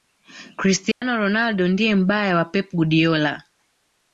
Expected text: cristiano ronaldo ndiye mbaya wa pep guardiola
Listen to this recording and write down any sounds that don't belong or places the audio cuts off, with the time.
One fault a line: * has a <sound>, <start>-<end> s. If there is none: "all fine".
* has a dropout, 0.9-1.0 s